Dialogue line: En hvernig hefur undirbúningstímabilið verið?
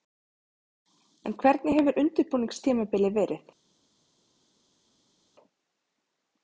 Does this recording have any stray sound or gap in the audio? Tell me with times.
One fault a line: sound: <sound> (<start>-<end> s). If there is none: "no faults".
no faults